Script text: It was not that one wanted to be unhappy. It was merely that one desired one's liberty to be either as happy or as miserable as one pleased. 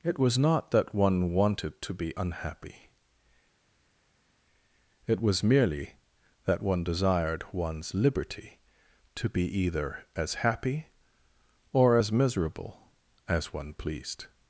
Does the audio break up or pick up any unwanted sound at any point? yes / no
no